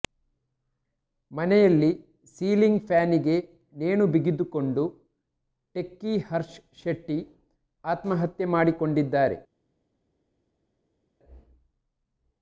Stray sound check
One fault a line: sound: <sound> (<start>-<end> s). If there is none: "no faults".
no faults